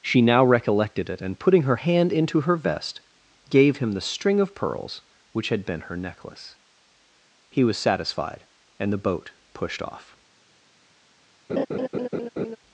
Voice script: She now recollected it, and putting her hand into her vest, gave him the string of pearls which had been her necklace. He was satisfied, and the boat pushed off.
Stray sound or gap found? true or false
true